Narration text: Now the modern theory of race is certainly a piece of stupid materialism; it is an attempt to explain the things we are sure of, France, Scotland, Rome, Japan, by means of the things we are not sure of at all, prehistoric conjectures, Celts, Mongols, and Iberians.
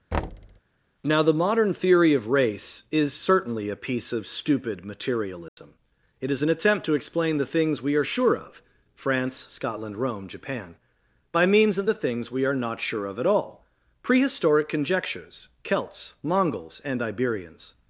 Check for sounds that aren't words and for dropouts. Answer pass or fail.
fail